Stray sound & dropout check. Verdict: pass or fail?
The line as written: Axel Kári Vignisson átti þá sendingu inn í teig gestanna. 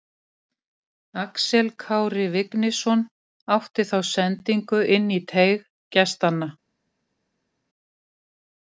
pass